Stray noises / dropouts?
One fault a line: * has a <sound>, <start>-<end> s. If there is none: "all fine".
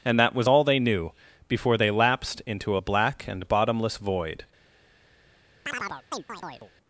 * has a chirp, 5.7-6.7 s